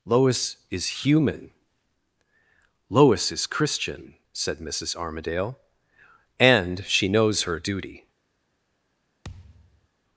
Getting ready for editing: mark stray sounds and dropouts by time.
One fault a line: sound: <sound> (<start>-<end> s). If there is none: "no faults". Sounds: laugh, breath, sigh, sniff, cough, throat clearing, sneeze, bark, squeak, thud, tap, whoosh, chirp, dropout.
sound: thud (9.2-9.9 s)